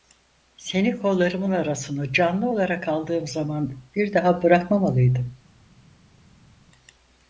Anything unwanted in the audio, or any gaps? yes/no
no